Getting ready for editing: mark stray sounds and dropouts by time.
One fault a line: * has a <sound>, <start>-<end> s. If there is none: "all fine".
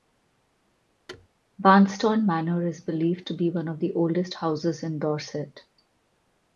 * has a thud, 1.1-1.3 s